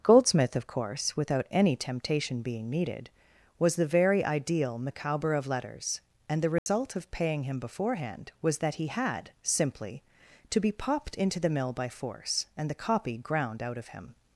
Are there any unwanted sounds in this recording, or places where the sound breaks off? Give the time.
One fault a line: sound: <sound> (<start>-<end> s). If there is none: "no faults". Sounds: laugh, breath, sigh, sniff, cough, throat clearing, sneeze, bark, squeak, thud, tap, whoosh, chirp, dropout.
sound: dropout (6.6-6.7 s)